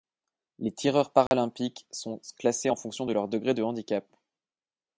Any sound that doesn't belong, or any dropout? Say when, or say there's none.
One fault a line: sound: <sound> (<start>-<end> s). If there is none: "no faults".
sound: dropout (1.3-1.3 s)